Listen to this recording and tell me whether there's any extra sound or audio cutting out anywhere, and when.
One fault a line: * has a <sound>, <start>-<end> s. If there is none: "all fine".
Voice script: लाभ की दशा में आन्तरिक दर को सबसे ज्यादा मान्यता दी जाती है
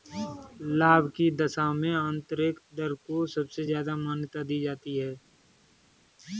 all fine